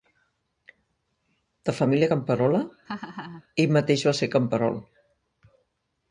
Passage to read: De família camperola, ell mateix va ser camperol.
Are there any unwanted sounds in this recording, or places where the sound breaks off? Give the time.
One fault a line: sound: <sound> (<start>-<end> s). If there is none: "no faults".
sound: laugh (2.9-3.4 s)